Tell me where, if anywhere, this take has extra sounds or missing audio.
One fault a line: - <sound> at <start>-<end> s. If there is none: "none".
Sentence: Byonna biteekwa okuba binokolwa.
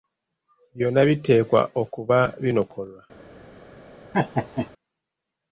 - laugh at 4.1-4.7 s